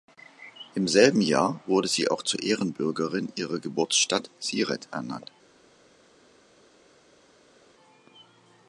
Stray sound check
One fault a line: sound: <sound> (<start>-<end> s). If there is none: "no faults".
no faults